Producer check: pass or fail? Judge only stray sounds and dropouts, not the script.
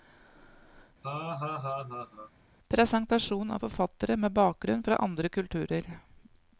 fail